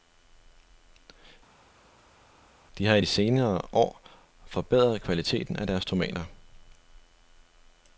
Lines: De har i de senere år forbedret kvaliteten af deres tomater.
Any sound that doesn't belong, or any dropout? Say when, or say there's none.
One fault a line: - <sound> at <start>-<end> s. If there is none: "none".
none